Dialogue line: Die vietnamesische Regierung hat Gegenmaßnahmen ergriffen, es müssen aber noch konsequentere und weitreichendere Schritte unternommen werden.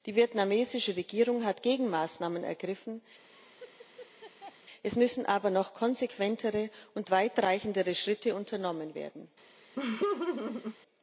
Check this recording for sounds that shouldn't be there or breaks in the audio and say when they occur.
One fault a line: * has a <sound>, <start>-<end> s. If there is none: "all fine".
* has a laugh, 3.3-4.6 s
* has a laugh, 9.8-10.8 s